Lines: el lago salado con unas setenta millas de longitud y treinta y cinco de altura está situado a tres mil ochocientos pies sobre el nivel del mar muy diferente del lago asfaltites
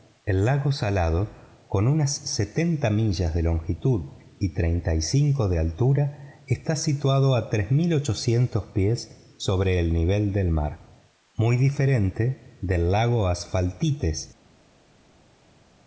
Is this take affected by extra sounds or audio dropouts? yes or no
no